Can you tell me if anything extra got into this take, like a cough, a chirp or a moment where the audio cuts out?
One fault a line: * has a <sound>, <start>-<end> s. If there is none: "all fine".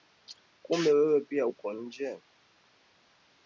all fine